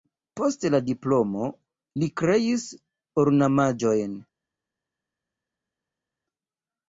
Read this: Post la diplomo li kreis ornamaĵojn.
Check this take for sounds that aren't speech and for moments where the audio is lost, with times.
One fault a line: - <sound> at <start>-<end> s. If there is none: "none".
none